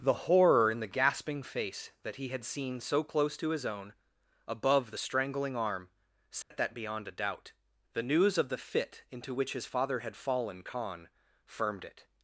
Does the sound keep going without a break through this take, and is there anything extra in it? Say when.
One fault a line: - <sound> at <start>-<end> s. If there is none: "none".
- dropout at 6.4-6.5 s